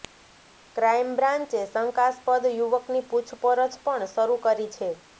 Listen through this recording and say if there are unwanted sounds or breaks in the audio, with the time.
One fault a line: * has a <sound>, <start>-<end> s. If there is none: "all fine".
all fine